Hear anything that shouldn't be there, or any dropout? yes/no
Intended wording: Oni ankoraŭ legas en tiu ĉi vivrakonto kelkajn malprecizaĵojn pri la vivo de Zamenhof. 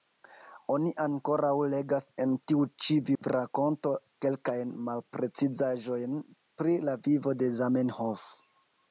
yes